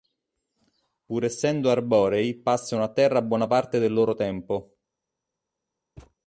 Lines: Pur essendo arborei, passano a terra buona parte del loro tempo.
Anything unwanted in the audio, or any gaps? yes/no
yes